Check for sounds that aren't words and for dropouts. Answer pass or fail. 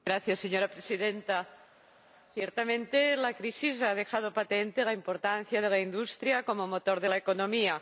pass